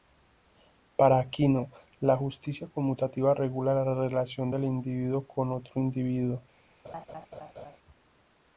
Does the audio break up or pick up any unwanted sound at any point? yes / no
yes